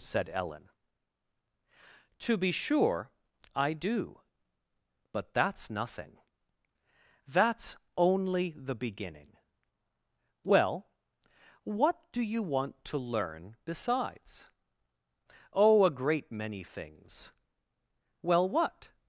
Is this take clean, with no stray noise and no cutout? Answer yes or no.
yes